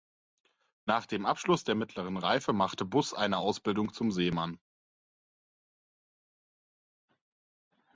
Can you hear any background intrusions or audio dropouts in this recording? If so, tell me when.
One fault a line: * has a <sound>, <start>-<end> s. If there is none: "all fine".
all fine